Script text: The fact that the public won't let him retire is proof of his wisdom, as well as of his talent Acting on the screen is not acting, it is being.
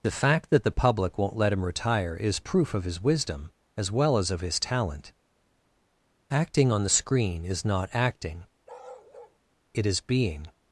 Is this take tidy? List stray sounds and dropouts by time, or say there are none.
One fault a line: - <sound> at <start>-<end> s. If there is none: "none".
- bark at 8.7-9.4 s